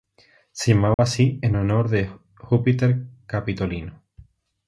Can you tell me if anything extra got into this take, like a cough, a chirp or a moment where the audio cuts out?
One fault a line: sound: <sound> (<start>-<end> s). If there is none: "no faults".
sound: dropout (0.9-1.0 s)